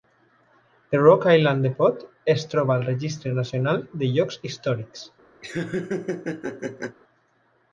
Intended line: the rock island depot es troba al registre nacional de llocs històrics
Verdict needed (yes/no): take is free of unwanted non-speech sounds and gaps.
no